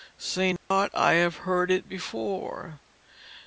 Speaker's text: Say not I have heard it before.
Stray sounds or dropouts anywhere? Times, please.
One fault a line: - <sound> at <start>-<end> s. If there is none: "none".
- dropout at 0.6-0.7 s